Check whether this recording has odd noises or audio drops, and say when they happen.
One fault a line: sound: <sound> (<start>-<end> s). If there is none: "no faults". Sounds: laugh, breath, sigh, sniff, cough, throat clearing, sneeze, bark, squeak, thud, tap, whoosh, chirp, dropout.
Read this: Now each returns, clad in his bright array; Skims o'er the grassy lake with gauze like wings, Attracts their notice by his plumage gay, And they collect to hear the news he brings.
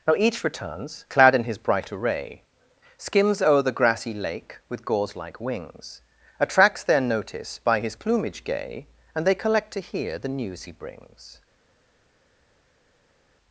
no faults